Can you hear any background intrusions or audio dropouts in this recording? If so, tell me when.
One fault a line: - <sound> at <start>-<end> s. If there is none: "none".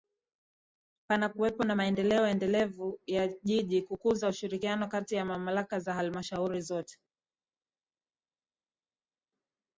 none